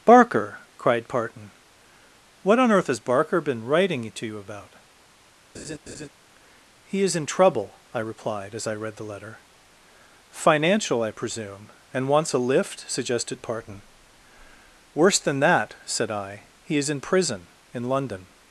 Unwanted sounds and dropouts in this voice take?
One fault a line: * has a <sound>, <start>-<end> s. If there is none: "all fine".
* has a laugh, 5.5-6.1 s